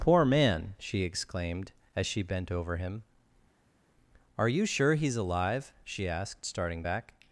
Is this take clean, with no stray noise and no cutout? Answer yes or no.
yes